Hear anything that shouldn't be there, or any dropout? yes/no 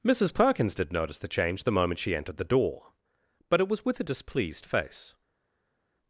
no